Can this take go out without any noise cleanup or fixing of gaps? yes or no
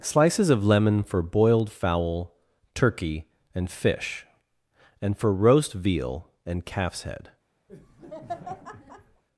no